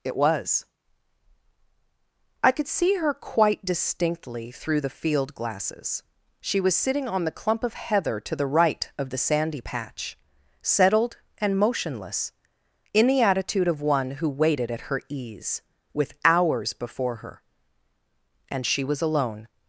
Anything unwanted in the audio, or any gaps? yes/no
no